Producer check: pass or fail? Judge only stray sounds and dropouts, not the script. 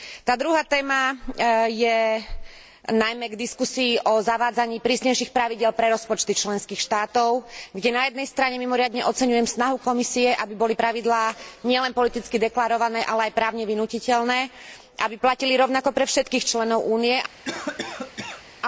fail